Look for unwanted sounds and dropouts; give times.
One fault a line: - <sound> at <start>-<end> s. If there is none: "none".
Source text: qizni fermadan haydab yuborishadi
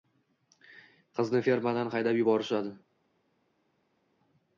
none